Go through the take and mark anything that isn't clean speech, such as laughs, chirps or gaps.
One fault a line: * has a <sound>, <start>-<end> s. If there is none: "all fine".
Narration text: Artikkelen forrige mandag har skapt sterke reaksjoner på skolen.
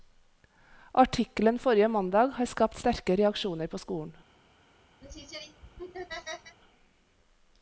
* has a laugh, 5.0-6.6 s